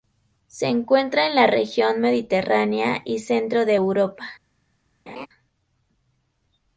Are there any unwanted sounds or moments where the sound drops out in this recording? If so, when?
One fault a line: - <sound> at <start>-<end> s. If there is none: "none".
- laugh at 5.1-5.3 s